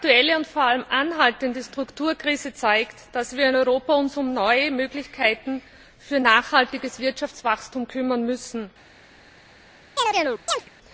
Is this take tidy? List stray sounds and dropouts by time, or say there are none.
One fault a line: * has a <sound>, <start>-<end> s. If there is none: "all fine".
* has a chirp, 10.0-10.7 s